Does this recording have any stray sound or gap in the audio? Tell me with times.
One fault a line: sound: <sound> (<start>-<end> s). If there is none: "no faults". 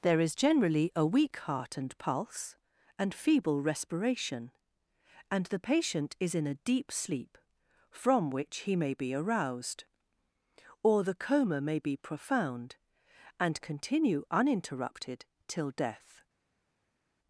no faults